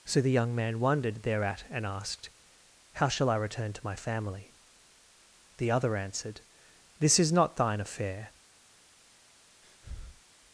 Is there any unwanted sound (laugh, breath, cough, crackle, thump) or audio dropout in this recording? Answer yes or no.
yes